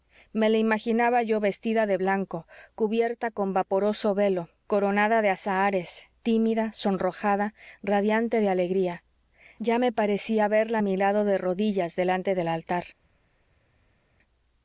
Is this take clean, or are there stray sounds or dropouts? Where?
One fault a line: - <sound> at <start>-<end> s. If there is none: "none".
none